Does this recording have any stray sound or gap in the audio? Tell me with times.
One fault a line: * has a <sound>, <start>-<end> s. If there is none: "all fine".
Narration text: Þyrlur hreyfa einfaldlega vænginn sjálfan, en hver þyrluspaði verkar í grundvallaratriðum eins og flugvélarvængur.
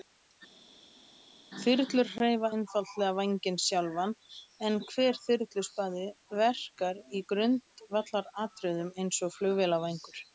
all fine